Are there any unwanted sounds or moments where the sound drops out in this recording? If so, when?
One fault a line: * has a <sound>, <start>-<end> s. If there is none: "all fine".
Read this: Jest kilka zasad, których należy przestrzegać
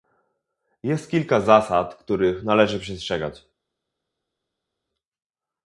all fine